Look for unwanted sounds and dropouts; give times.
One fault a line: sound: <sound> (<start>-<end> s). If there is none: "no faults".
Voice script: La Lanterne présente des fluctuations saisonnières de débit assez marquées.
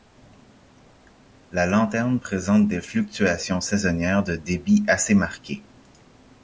no faults